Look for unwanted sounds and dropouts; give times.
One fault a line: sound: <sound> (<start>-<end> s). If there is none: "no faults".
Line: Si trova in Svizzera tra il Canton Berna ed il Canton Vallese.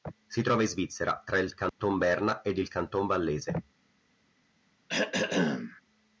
sound: dropout (1.7-1.8 s)
sound: throat clearing (4.9-5.8 s)